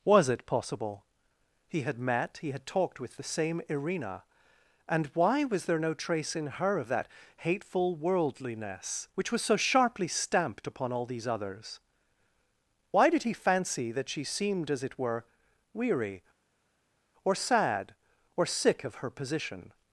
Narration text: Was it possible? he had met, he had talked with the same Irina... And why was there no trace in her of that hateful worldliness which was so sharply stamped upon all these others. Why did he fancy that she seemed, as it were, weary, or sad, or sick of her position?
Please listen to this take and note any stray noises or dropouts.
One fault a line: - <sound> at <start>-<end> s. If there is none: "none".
none